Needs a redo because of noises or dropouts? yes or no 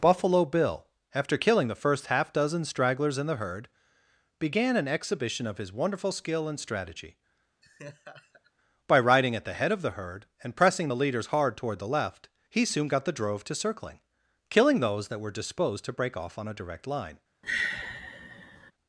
yes